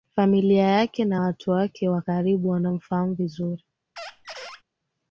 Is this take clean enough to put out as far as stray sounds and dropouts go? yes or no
no